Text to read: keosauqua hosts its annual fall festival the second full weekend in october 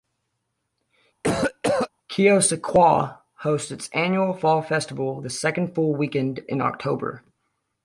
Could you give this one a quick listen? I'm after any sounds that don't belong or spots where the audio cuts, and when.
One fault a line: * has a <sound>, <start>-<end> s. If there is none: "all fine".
* has a cough, 1.2-1.9 s